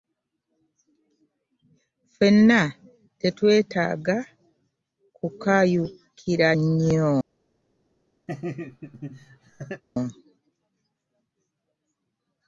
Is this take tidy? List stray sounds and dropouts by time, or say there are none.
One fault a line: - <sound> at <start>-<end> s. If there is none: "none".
- laugh at 8.3-9.8 s